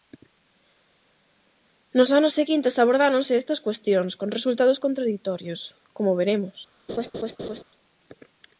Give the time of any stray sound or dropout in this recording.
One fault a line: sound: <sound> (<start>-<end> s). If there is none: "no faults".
sound: laugh (6.9-7.6 s)